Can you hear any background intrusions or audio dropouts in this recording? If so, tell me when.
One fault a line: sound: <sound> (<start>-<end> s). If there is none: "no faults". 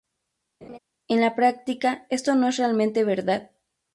sound: laugh (0.6-0.8 s)